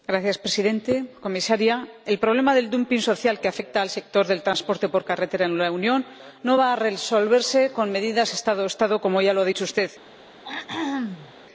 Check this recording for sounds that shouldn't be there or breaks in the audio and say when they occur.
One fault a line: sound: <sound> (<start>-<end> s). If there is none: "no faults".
sound: throat clearing (10.4-11.3 s)